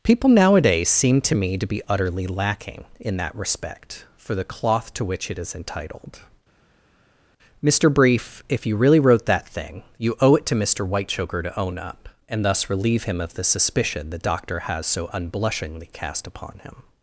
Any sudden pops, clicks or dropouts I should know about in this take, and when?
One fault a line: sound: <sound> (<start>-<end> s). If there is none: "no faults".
no faults